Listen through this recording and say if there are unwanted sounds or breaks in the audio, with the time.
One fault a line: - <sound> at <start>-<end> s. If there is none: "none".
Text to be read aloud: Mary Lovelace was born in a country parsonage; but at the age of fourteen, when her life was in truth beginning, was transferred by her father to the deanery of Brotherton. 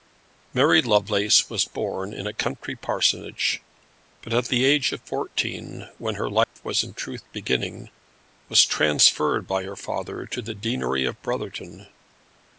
- dropout at 6.4-6.6 s